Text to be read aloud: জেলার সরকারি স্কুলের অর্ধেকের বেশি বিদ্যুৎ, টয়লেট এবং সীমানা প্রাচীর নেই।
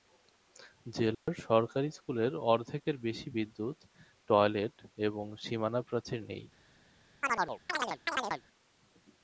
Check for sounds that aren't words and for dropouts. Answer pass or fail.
fail